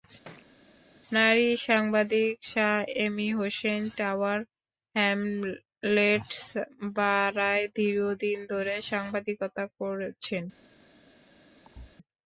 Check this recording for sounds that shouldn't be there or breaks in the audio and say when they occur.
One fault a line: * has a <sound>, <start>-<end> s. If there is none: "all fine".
* has a thud, 0.2-0.5 s
* has a thud, 11.6-12.0 s